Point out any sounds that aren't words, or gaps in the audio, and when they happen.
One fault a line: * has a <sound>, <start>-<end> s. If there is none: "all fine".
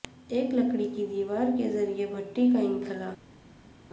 all fine